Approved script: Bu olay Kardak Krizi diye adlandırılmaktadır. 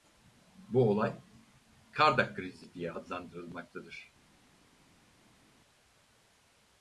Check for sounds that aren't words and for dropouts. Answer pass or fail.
pass